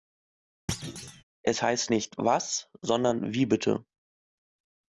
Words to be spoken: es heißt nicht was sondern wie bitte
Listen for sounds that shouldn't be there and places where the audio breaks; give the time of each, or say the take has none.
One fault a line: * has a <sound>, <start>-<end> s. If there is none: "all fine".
* has a thud, 0.7-1.2 s